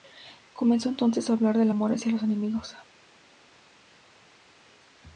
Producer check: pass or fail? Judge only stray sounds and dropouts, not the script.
pass